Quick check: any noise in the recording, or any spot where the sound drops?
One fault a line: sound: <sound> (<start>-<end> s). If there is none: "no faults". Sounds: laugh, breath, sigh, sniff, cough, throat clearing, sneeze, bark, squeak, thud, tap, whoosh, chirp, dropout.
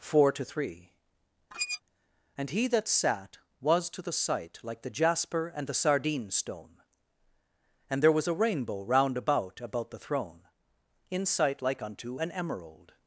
sound: squeak (1.5-1.8 s)